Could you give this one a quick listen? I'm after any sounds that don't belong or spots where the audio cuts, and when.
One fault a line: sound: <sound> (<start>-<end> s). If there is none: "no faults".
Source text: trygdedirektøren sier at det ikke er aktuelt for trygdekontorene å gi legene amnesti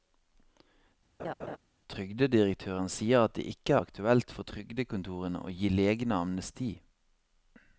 sound: laugh (1.2-1.6 s)